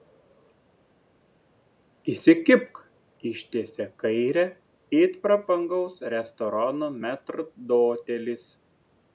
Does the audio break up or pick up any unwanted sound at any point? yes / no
no